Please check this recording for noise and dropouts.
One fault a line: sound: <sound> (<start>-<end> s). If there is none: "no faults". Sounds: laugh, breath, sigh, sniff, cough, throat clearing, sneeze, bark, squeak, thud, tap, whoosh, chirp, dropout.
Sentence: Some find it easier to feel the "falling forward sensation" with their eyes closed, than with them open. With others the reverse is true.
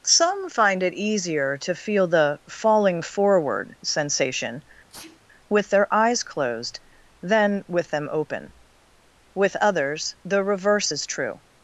sound: sneeze (4.9-5.2 s)